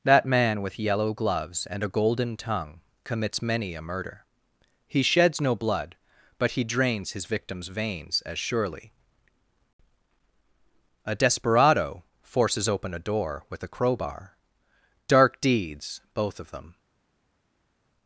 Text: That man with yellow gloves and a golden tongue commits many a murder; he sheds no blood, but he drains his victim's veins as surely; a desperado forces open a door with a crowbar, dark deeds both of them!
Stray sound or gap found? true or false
false